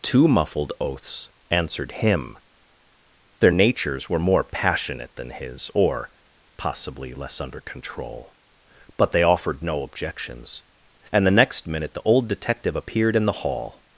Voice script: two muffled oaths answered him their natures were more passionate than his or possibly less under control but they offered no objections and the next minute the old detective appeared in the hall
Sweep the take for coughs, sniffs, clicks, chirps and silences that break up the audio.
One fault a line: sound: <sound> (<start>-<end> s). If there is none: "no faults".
no faults